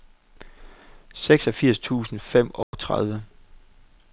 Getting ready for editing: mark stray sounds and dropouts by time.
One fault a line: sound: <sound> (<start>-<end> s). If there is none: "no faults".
sound: dropout (2.6-2.7 s)